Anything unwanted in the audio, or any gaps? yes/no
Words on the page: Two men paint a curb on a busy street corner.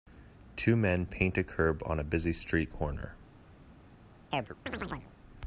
yes